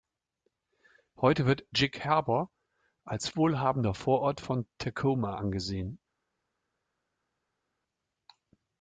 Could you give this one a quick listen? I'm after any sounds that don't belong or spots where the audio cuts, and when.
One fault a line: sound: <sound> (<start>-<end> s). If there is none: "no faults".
no faults